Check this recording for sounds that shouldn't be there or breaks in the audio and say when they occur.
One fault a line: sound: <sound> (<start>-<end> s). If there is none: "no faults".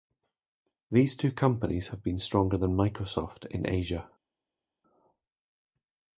no faults